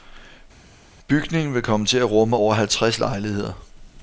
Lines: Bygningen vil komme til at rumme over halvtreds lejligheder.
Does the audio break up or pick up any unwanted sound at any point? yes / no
no